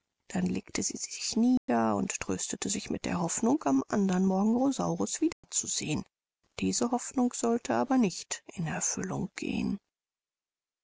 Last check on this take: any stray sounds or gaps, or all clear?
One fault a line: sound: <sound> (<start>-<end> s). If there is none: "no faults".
sound: dropout (1.6-1.7 s)
sound: dropout (5.3-5.4 s)